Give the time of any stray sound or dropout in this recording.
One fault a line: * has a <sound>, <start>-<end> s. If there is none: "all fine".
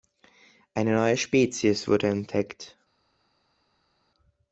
all fine